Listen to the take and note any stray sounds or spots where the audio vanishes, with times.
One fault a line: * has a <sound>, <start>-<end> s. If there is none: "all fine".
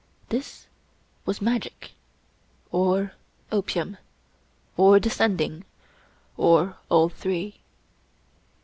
all fine